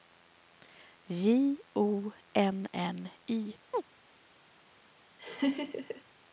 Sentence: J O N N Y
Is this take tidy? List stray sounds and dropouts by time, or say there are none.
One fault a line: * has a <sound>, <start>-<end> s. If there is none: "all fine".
* has a chirp, 3.7-3.8 s
* has a laugh, 5.2-6.0 s